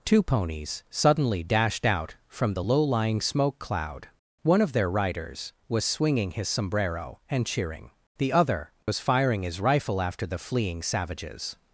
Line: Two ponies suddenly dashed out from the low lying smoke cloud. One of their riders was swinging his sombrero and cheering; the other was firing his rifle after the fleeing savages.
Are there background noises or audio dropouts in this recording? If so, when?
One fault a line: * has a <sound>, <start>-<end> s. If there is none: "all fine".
* has a dropout, 8.8-8.9 s